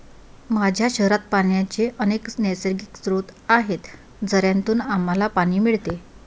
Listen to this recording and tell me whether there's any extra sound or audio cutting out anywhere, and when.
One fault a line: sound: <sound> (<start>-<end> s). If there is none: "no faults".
no faults